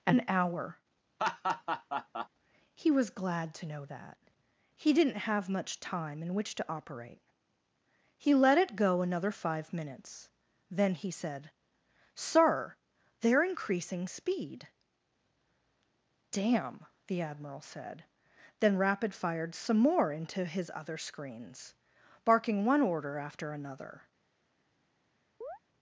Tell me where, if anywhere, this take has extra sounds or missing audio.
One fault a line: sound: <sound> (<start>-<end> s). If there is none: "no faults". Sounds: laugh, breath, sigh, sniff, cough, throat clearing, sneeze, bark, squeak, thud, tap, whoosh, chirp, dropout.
sound: laugh (1.2-2.3 s)
sound: chirp (25.4-25.6 s)